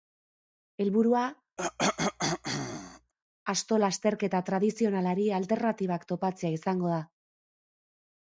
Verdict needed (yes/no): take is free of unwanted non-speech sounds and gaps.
no